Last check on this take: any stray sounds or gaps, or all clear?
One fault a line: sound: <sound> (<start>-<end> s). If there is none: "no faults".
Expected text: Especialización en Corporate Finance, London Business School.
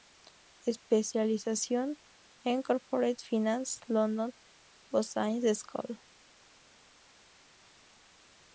no faults